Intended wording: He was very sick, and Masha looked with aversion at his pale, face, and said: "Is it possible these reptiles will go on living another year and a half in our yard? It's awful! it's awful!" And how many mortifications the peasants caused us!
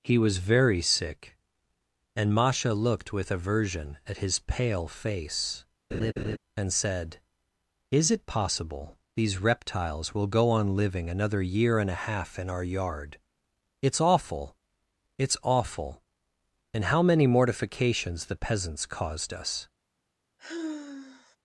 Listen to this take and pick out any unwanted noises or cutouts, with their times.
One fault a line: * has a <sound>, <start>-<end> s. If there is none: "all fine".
* has a laugh, 5.9-6.4 s
* has a sigh, 20.4-21.4 s